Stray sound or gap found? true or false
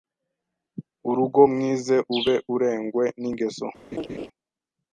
true